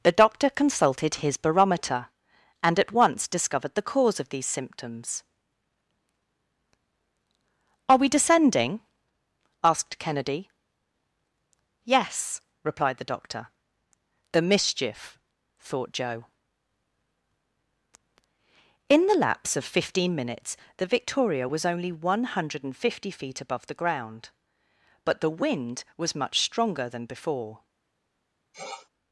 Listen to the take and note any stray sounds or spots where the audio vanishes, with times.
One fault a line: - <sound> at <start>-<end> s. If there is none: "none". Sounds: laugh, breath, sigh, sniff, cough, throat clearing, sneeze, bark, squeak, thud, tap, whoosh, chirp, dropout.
- sniff at 28.5-28.9 s